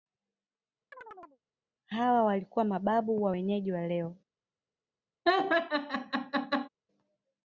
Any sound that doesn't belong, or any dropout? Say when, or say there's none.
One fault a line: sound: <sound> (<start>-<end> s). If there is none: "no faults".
sound: chirp (0.9-1.4 s)
sound: laugh (5.3-6.7 s)